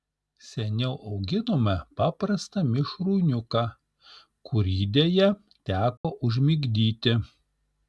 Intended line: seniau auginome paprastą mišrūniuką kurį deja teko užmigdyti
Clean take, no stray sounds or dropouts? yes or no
no